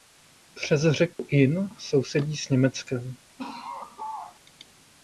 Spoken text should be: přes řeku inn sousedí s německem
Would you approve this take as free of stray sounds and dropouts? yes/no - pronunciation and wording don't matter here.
no